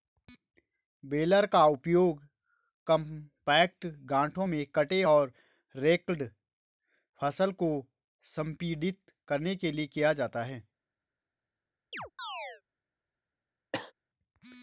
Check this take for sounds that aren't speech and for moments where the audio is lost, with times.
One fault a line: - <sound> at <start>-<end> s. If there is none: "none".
- chirp at 11.9-12.6 s
- cough at 13.7-13.9 s